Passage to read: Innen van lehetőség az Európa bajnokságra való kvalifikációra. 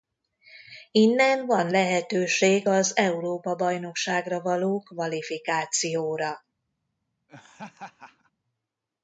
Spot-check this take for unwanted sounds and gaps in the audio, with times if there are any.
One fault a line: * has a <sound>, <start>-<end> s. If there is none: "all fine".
* has a laugh, 7.3-8.3 s